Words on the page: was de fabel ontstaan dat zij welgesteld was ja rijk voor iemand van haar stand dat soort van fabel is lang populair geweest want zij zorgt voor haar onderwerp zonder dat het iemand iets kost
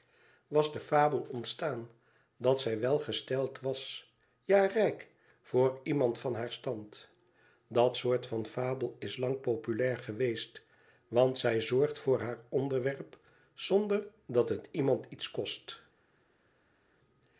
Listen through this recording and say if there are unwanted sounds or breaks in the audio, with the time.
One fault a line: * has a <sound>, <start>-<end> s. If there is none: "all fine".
all fine